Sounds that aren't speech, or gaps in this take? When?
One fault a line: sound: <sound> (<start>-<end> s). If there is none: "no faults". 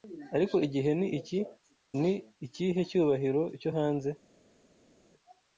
no faults